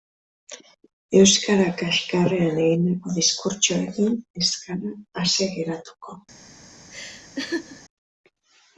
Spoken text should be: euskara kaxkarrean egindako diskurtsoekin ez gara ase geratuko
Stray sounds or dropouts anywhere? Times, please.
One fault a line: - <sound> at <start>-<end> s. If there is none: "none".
- laugh at 6.9-7.8 s